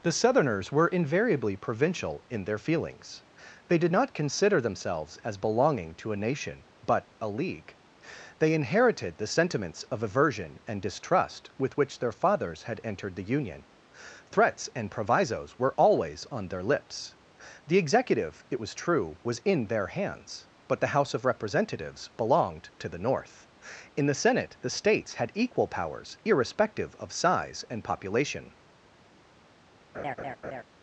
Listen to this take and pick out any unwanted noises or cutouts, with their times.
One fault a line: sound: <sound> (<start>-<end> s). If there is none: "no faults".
sound: laugh (29.9-30.6 s)